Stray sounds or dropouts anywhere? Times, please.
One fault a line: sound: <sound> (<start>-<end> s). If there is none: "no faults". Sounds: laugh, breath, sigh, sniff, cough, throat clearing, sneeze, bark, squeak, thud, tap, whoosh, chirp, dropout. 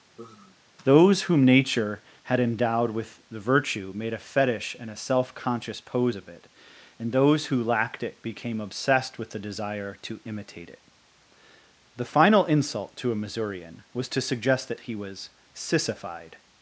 sound: sigh (0.2-0.6 s)